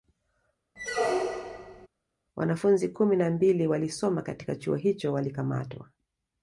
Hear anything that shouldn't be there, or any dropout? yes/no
yes